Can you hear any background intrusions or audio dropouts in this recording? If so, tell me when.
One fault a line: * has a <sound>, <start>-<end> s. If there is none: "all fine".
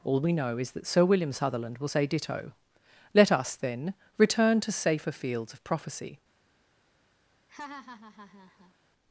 * has a laugh, 7.5-8.7 s